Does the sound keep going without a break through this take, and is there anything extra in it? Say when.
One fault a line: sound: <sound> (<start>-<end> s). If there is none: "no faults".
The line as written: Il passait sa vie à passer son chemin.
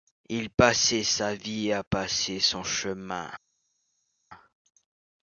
no faults